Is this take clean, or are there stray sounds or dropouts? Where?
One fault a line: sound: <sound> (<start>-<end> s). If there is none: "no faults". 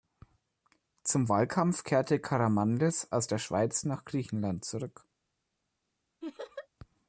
sound: laugh (6.2-6.7 s)